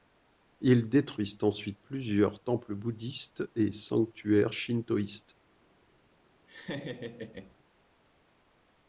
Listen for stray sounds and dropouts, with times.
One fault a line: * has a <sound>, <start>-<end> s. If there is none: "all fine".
* has a laugh, 6.5-7.6 s